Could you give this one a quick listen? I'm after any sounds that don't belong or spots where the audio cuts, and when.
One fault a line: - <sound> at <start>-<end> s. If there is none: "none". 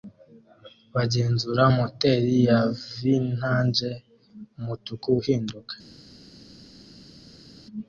none